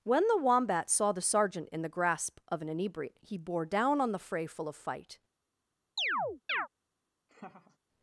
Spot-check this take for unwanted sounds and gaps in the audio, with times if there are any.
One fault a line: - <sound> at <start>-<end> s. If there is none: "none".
- chirp at 6.0-6.7 s
- laugh at 7.3-7.8 s